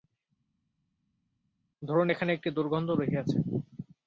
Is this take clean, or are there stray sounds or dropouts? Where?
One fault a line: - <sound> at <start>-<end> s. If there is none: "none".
none